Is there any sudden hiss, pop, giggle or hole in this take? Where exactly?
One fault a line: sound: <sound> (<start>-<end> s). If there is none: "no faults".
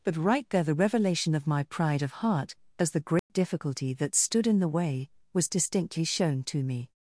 sound: dropout (3.2-3.3 s)